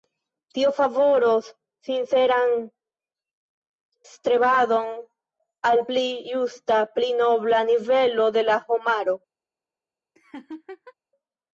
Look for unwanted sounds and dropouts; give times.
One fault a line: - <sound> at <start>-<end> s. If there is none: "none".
- laugh at 10.2-10.9 s